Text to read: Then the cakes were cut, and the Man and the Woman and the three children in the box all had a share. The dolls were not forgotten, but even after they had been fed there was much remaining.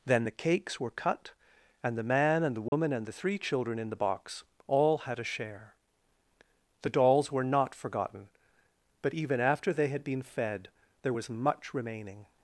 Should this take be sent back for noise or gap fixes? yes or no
yes